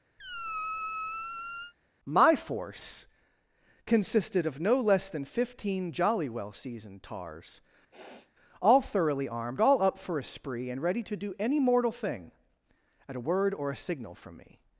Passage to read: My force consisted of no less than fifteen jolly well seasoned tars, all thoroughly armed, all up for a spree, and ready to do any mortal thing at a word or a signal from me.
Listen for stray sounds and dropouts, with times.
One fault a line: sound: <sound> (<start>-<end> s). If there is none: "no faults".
sound: squeak (0.2-1.7 s)
sound: sniff (7.9-8.3 s)